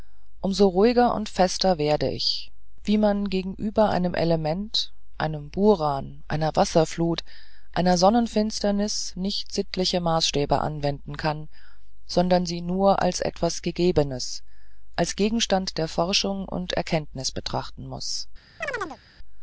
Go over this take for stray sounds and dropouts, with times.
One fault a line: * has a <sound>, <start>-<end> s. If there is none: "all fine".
* has a chirp, 18.6-19.0 s